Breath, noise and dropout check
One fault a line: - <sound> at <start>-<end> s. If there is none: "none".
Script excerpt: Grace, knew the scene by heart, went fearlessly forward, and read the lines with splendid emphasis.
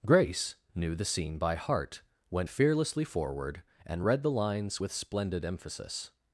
none